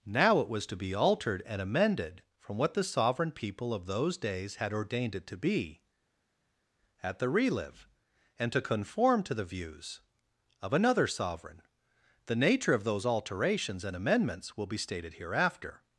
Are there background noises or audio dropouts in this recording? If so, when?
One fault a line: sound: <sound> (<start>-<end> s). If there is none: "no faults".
no faults